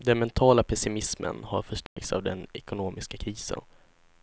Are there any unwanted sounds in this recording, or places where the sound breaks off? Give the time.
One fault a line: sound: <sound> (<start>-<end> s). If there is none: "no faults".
sound: dropout (1.9-2.0 s)